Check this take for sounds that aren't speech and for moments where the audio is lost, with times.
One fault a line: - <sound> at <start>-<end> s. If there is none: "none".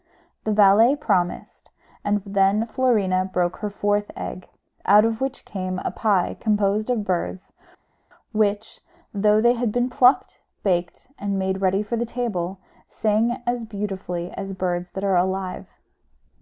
none